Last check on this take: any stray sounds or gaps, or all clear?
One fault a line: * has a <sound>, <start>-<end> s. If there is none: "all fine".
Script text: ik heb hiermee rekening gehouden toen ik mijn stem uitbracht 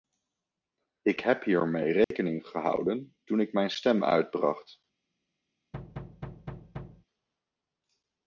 * has a dropout, 2.0-2.1 s
* has a thud, 5.7-7.1 s